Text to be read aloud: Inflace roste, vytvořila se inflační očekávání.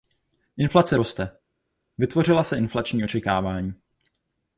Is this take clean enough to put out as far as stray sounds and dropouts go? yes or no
yes